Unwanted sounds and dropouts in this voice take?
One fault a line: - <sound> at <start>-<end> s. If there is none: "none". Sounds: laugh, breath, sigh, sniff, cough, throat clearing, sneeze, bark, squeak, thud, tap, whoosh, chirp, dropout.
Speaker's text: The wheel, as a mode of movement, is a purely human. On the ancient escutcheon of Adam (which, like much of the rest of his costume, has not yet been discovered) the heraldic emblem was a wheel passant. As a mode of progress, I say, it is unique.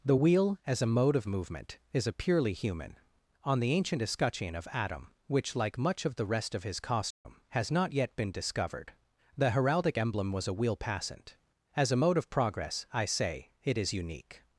- dropout at 7.1-7.3 s